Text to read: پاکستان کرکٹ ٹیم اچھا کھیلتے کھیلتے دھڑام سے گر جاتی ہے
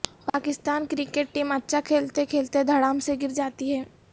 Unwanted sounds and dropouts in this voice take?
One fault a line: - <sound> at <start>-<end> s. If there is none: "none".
none